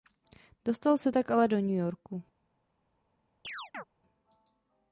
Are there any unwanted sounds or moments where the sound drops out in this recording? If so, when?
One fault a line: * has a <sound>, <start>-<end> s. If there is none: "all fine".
* has a chirp, 3.4-3.8 s